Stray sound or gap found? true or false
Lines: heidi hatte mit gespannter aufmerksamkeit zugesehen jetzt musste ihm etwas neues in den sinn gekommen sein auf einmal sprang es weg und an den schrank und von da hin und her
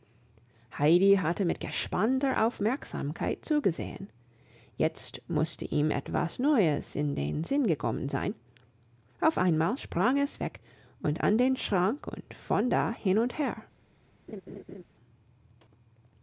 true